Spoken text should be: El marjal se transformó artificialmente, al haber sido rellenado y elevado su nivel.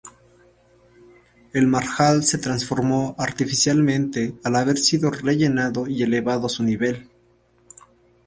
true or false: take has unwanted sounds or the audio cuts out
false